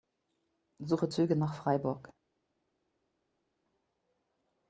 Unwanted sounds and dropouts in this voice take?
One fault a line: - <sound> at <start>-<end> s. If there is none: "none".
none